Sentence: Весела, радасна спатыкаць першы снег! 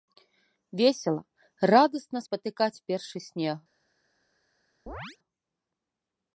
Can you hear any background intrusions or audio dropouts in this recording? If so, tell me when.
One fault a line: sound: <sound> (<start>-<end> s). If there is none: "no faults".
sound: chirp (4.9-5.2 s)